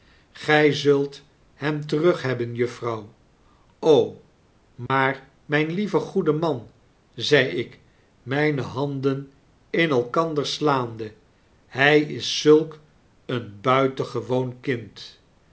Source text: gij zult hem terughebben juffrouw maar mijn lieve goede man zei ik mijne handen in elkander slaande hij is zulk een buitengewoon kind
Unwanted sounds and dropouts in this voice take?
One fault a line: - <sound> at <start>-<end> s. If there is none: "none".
- dropout at 4.9-4.9 s